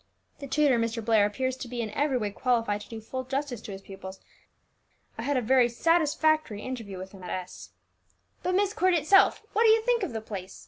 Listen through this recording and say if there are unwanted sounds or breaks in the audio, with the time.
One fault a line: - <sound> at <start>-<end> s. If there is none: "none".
none